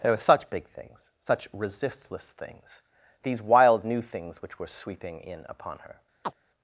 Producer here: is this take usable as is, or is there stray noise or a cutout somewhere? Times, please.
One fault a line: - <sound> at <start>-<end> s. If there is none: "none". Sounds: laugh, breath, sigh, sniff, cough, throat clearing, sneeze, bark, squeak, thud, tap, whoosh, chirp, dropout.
- chirp at 6.2-6.3 s